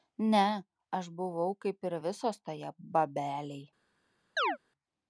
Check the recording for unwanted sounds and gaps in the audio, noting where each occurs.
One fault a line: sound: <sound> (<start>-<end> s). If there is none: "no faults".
sound: chirp (4.4-4.6 s)